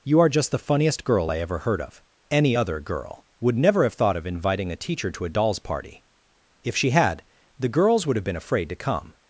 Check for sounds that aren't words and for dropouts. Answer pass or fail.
pass